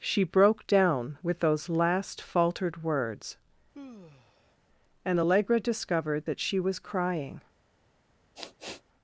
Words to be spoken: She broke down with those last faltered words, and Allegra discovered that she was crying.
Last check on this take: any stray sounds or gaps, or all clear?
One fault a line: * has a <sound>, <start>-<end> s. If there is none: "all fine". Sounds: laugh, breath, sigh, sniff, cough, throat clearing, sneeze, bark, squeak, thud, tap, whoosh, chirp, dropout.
* has a sigh, 3.7-4.6 s
* has a sniff, 8.4-8.8 s